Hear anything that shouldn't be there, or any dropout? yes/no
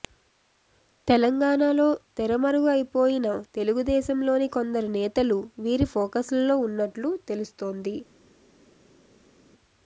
no